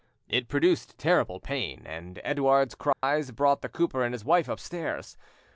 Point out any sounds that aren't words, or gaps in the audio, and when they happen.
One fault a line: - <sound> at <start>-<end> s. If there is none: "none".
- dropout at 2.9-3.0 s